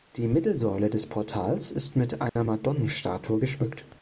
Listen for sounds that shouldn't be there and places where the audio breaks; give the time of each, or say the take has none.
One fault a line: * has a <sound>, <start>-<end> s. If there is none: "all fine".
* has a dropout, 2.3-2.4 s